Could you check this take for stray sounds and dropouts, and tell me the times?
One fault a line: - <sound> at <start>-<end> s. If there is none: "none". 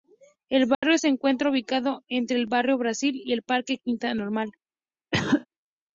- dropout at 0.7-0.8 s
- cough at 5.1-5.5 s